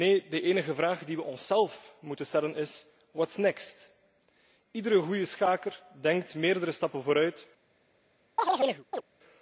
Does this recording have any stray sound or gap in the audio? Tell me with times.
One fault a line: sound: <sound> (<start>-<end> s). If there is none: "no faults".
sound: chirp (8.4-9.0 s)